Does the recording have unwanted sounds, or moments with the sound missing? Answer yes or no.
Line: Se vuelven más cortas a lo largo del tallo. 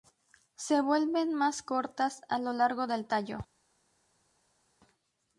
no